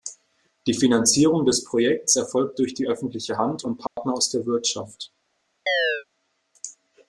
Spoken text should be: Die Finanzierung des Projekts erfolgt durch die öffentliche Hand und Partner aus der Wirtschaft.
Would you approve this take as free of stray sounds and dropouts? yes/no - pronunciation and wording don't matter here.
no